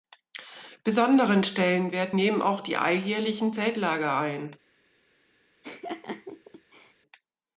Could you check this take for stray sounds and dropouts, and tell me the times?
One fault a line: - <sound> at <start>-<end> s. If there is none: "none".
- laugh at 5.6-6.9 s